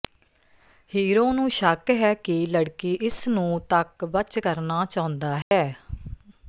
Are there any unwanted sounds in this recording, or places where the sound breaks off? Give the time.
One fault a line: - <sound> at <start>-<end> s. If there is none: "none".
- dropout at 5.4-5.5 s